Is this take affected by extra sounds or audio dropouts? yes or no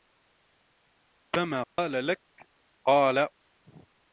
yes